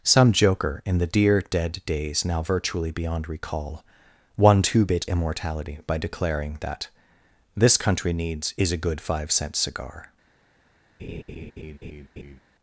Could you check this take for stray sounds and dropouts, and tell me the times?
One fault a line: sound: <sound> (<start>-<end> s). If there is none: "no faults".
sound: laugh (11.0-12.4 s)